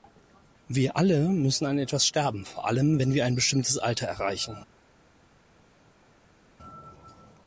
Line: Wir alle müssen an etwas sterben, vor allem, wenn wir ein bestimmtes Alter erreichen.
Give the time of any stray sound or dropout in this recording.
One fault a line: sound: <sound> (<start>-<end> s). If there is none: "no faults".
no faults